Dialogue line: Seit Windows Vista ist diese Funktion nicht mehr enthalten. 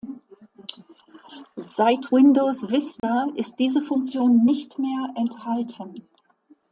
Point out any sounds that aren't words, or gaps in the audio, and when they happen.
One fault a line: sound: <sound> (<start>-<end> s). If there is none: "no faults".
sound: dropout (3.0-3.0 s)